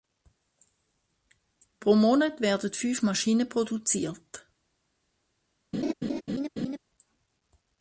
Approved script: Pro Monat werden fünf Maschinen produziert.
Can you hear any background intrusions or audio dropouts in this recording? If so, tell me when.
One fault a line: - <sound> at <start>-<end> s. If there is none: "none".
- laugh at 5.7-6.8 s